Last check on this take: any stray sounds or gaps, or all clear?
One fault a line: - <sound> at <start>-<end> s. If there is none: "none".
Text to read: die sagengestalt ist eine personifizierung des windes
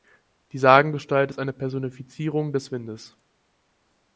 none